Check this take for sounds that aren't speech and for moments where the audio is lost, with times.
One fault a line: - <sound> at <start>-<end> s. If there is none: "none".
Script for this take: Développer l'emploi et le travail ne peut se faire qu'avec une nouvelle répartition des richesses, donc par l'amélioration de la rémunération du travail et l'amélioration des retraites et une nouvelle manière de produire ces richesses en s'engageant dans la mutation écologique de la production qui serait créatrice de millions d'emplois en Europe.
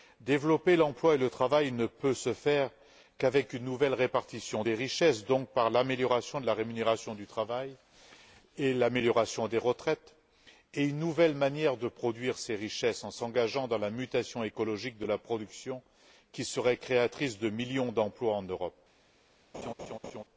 - laugh at 19.5-20.2 s